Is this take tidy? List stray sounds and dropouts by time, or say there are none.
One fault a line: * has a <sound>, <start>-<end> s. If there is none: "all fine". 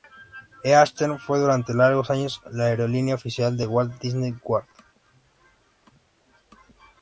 all fine